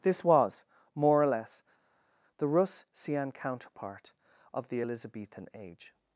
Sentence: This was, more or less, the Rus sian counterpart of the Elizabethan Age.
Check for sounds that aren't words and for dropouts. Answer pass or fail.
pass